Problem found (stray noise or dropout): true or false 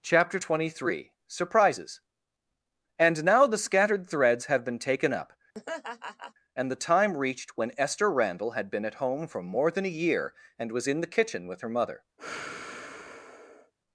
true